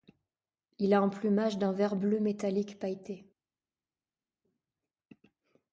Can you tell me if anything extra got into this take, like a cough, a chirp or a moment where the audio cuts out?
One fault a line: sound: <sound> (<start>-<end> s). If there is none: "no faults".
no faults